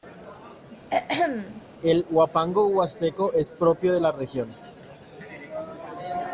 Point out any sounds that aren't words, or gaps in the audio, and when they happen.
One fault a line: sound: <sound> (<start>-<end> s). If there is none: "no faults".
sound: throat clearing (0.9-1.6 s)